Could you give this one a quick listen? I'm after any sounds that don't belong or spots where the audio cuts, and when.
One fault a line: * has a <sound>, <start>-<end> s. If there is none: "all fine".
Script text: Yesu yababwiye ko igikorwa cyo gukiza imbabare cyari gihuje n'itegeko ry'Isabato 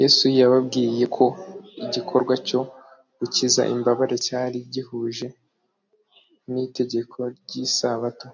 all fine